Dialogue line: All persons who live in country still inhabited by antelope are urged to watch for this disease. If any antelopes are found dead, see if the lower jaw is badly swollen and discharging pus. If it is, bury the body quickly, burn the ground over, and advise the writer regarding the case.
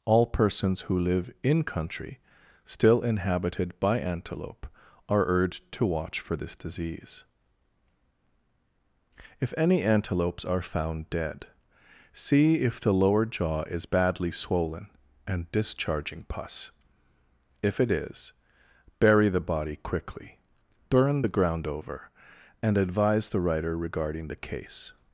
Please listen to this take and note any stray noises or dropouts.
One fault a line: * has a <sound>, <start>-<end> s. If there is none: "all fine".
all fine